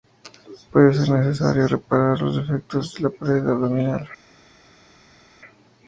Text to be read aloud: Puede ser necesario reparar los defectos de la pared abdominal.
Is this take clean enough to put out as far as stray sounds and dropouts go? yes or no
yes